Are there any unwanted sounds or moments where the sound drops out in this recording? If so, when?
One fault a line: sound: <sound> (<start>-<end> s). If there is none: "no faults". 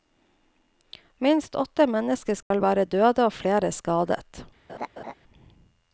sound: dropout (2.4-2.5 s)
sound: laugh (4.7-5.1 s)